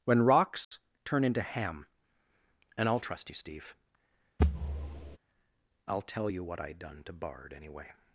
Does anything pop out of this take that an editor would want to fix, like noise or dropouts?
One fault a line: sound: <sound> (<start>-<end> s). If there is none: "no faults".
sound: dropout (0.6-0.7 s)
sound: thud (4.4-5.2 s)